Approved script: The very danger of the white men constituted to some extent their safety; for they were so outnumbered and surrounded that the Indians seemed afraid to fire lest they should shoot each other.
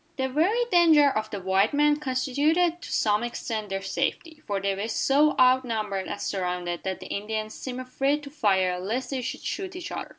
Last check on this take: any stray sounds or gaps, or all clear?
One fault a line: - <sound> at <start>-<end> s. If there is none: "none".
none